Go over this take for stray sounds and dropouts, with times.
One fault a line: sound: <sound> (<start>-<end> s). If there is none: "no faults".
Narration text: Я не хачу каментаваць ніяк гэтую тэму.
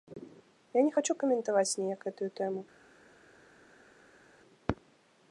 no faults